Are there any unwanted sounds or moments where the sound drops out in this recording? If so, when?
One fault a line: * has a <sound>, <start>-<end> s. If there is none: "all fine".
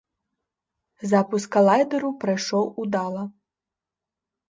all fine